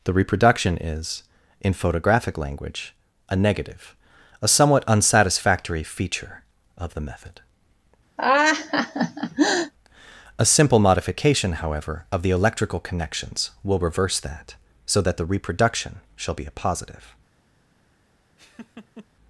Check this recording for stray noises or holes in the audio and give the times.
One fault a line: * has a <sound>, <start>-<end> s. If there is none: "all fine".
* has a laugh, 8.2-9.7 s
* has a laugh, 18.4-19.1 s